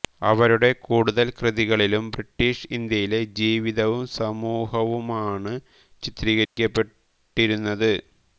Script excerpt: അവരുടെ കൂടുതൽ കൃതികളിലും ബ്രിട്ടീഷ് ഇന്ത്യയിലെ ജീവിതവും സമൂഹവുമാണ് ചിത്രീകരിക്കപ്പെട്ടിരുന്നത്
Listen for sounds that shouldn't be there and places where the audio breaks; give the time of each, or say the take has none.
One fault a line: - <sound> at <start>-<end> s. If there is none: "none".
- dropout at 6.5-6.6 s